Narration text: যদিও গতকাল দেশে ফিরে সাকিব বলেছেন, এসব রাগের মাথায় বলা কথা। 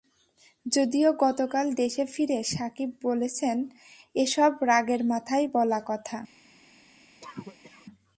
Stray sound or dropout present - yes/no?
yes